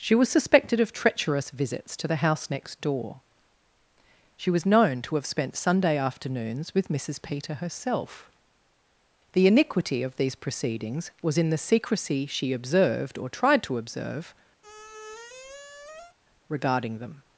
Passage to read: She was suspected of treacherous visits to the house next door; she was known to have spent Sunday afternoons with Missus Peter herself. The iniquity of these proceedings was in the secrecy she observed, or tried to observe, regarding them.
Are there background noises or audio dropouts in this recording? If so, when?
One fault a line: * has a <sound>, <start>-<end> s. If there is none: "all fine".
* has a squeak, 14.6-16.2 s